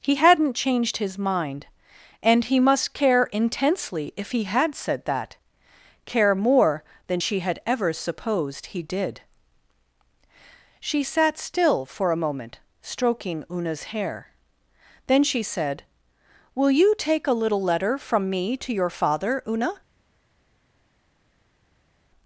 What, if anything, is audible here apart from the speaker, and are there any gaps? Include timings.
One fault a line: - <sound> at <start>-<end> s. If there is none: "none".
none